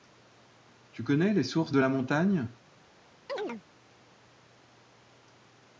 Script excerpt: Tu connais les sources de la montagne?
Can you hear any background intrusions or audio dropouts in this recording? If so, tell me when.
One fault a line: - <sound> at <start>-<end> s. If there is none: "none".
- chirp at 3.3-3.6 s